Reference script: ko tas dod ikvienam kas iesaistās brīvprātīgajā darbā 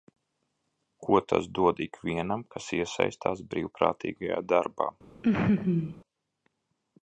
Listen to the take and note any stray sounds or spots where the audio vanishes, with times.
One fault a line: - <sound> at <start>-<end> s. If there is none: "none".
- laugh at 5.2-6.0 s